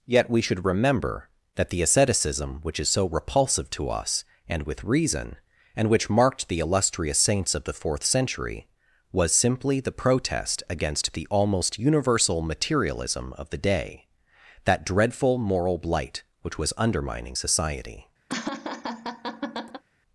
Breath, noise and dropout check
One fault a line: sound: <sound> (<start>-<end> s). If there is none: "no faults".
sound: laugh (18.3-19.8 s)